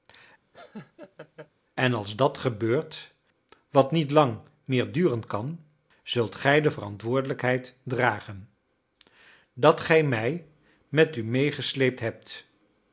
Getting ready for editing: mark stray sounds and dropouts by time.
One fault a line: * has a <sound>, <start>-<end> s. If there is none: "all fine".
* has a laugh, 0.5-1.5 s